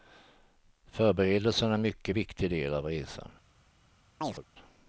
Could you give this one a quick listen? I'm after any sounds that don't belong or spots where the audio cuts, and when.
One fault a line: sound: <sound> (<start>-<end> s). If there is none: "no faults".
sound: chirp (4.2-4.4 s)